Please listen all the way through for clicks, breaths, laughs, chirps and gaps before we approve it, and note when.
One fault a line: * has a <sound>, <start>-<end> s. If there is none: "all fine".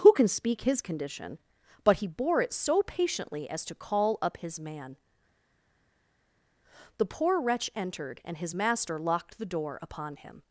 all fine